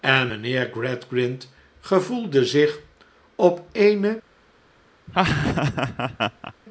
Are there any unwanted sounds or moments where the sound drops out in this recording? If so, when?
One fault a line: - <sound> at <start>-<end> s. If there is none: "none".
- laugh at 5.1-6.5 s